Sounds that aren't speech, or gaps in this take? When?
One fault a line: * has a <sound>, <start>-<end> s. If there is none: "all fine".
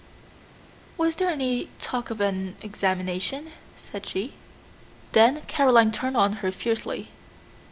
all fine